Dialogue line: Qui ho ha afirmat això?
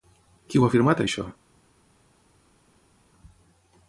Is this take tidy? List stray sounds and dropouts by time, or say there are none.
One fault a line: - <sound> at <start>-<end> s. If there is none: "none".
none